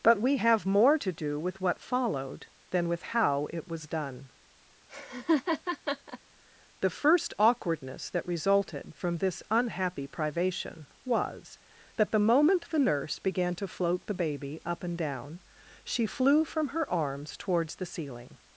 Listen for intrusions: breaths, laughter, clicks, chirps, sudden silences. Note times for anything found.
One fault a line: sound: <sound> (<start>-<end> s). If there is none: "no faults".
sound: laugh (4.9-6.2 s)